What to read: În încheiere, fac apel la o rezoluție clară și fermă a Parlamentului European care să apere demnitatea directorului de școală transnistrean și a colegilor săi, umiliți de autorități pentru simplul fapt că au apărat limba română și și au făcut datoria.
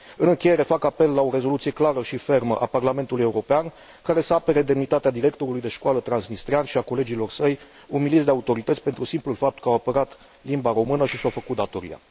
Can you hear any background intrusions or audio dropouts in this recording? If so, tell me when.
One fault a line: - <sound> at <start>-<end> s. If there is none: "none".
none